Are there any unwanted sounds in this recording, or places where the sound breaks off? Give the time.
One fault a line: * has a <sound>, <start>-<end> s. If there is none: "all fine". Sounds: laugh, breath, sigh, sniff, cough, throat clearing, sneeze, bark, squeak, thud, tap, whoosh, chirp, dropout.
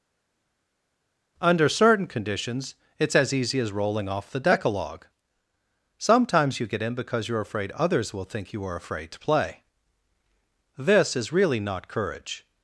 all fine